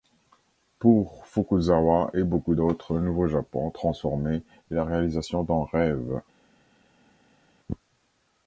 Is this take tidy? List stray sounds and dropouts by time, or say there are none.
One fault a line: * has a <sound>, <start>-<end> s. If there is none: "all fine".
all fine